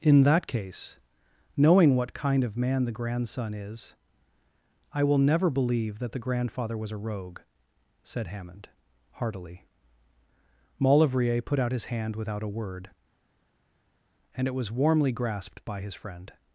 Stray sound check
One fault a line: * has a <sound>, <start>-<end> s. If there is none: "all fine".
all fine